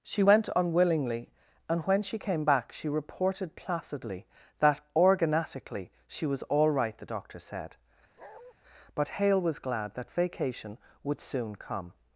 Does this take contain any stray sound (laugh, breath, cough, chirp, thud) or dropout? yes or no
yes